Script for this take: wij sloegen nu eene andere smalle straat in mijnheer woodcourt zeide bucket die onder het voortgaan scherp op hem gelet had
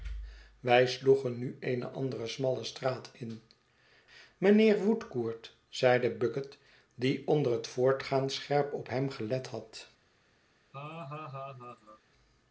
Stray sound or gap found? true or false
true